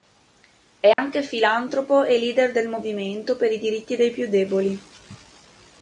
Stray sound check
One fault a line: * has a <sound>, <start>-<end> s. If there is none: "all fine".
* has a dropout, 0.9-1.0 s